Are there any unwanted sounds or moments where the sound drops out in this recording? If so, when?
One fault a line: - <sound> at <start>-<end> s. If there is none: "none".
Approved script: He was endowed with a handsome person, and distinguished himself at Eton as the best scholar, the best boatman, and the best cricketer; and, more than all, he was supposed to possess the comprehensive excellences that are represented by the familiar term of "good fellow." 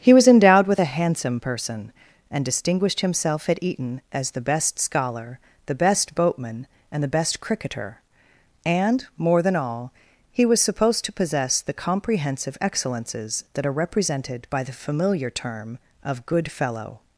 none